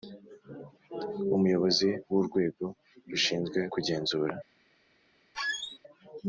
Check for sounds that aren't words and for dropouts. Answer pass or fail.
fail